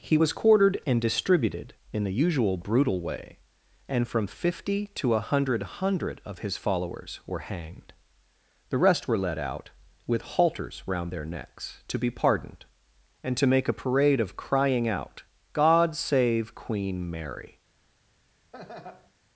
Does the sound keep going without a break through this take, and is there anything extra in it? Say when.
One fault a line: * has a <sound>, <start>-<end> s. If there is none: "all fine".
* has a laugh, 18.5-19.1 s